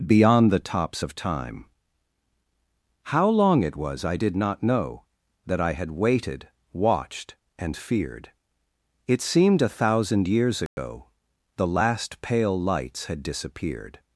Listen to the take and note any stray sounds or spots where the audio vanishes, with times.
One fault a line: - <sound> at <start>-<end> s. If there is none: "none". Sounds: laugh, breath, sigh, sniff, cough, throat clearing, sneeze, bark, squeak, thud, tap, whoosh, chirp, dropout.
- dropout at 10.7-10.8 s